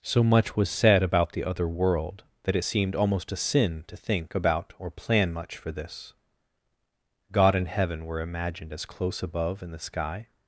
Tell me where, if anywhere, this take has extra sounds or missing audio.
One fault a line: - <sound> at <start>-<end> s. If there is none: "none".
none